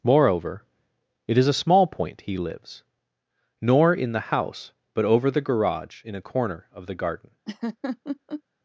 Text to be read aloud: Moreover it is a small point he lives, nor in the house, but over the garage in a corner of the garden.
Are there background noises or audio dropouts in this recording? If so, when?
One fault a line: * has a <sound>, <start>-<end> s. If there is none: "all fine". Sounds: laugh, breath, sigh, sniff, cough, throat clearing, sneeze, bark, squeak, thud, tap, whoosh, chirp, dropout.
* has a laugh, 7.5-8.4 s